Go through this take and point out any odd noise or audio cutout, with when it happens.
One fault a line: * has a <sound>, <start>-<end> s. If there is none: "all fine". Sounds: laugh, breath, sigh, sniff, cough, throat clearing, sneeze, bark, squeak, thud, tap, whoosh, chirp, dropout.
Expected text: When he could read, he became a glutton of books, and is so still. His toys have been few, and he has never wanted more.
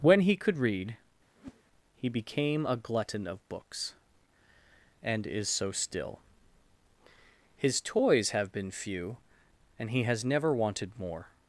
* has a whoosh, 1.4-1.6 s